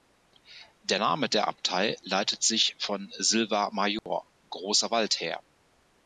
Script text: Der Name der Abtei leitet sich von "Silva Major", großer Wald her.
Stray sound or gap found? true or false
true